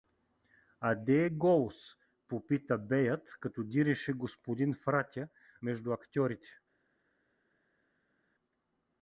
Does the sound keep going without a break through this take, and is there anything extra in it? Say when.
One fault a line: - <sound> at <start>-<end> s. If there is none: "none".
none